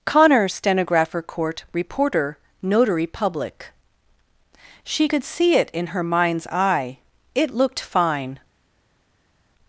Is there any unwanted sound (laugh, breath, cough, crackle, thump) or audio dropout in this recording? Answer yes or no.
no